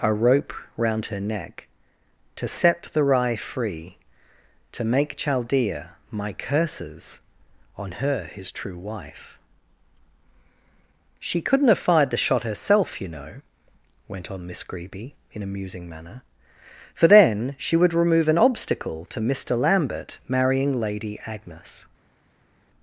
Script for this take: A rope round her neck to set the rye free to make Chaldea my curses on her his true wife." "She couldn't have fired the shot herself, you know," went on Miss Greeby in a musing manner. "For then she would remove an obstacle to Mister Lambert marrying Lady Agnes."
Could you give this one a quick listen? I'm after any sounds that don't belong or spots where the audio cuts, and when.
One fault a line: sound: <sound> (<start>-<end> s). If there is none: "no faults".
no faults